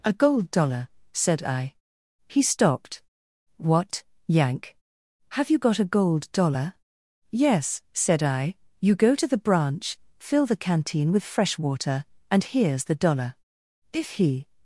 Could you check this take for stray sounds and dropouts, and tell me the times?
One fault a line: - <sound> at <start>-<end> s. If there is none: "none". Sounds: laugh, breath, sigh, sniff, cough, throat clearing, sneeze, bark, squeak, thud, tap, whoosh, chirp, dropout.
none